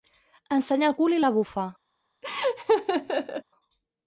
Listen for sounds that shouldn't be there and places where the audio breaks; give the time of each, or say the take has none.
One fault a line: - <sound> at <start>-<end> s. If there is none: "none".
- laugh at 2.2-3.4 s